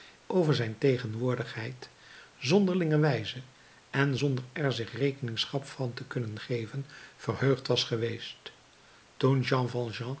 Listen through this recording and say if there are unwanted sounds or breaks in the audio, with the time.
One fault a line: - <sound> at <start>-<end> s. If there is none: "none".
none